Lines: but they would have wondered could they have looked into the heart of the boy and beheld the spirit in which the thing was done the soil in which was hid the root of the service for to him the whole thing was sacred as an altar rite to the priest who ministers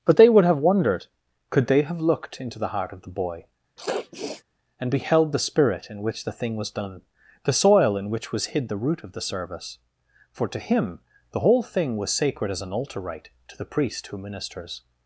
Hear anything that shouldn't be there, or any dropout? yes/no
yes